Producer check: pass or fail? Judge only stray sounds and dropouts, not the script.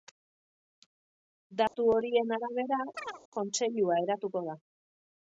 fail